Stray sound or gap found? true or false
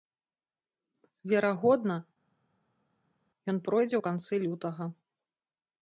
false